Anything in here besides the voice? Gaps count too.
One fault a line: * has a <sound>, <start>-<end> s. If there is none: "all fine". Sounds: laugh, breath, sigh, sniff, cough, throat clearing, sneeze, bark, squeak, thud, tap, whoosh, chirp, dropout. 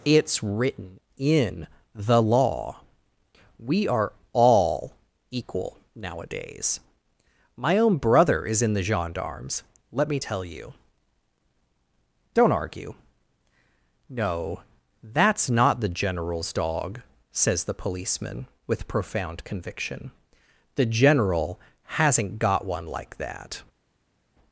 all fine